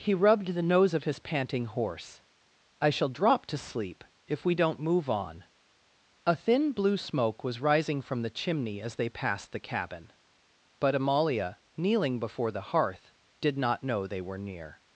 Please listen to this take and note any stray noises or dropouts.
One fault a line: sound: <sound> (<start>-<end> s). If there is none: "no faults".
no faults